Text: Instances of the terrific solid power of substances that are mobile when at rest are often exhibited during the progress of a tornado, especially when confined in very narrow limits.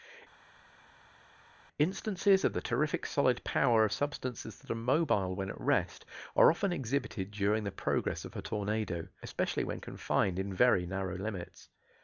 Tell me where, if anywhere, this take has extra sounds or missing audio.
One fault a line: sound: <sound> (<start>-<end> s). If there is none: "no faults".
no faults